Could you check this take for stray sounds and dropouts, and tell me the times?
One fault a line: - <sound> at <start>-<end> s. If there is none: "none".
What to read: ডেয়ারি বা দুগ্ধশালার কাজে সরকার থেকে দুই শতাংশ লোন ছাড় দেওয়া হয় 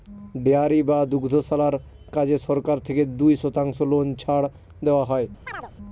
- chirp at 5.5-5.7 s